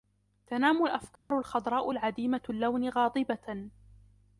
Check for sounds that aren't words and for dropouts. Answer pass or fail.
fail